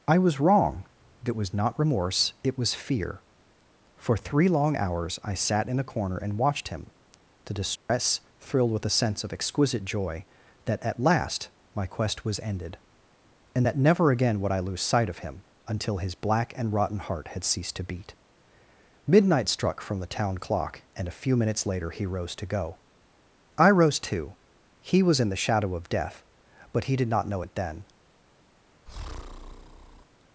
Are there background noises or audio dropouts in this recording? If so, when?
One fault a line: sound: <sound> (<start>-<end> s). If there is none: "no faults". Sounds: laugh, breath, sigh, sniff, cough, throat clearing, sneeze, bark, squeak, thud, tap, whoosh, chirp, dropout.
sound: dropout (7.8-7.9 s)
sound: breath (28.9-30.0 s)